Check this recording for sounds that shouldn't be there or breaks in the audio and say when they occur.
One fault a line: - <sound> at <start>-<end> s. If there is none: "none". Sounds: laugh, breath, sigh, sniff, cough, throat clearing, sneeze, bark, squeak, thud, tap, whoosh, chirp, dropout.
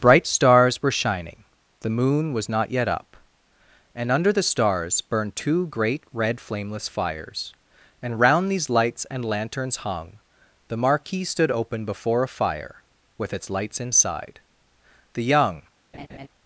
- laugh at 15.9-16.3 s